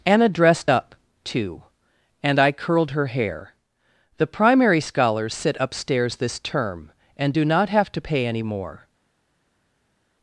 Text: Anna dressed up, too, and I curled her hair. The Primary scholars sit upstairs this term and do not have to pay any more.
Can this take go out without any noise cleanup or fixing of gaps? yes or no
yes